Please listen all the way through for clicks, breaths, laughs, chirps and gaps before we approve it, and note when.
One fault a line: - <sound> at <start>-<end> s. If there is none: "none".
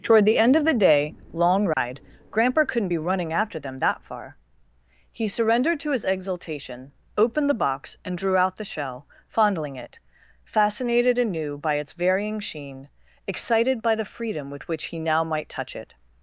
- dropout at 1.7-1.8 s